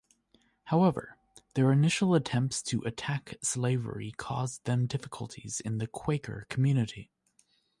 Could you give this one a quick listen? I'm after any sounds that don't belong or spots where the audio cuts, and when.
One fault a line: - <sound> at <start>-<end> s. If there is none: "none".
none